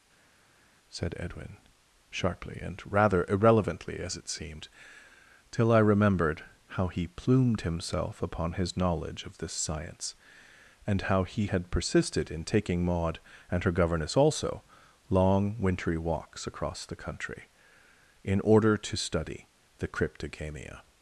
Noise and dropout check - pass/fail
pass